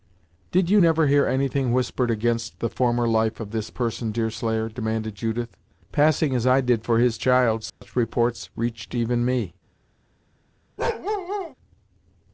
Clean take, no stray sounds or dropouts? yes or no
no